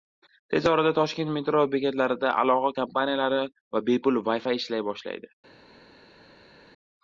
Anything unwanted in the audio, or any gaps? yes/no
no